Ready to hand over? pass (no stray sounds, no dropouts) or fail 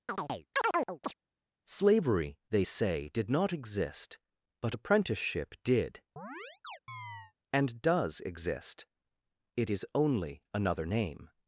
fail